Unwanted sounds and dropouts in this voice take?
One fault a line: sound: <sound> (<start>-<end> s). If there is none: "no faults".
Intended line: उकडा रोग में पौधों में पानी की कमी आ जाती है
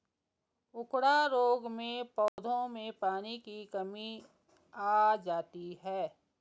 sound: dropout (2.3-2.4 s)